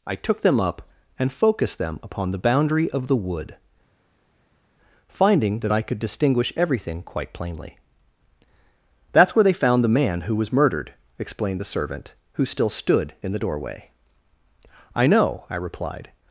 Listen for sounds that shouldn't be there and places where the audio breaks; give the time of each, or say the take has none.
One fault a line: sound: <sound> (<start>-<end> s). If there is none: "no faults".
no faults